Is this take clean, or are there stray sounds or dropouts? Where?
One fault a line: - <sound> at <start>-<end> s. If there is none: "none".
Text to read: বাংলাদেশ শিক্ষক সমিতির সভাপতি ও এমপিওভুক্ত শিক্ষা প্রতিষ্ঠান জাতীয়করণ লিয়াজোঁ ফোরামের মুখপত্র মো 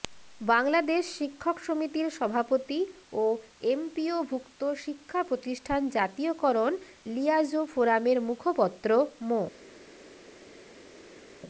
none